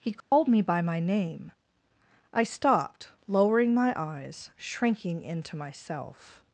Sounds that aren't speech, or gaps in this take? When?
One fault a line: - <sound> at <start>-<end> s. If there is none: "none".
- dropout at 0.2-0.3 s